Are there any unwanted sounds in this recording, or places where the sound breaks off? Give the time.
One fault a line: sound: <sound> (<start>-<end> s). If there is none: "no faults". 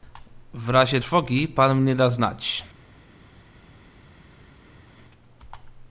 no faults